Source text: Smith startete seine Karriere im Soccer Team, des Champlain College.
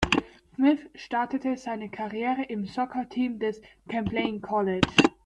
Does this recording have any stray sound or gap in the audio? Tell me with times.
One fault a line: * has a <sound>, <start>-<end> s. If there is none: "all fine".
all fine